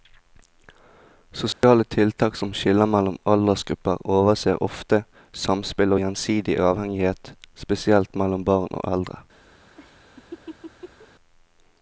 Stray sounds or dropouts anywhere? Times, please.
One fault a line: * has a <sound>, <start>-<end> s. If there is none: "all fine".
* has a dropout, 1.5-1.6 s
* has a laugh, 9.8-11.1 s